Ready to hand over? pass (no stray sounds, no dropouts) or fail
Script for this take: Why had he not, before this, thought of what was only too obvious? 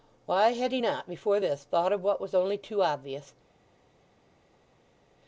pass